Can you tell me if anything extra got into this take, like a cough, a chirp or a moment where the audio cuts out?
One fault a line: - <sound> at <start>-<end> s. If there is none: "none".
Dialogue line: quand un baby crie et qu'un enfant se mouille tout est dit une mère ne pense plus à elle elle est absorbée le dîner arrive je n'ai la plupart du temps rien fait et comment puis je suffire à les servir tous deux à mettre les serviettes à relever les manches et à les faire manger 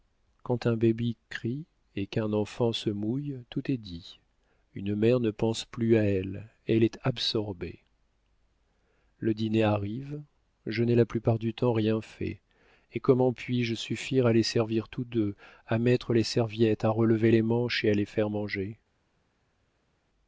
none